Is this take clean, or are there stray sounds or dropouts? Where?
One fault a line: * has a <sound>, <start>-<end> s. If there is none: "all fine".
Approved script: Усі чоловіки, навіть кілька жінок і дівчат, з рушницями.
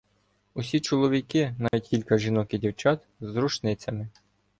* has a dropout, 1.7-1.7 s